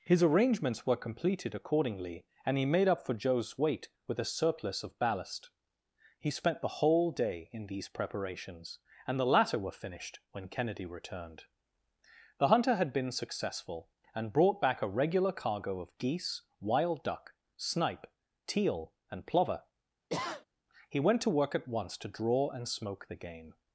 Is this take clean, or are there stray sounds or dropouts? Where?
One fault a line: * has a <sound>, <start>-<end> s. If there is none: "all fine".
* has a sniff, 20.1-20.5 s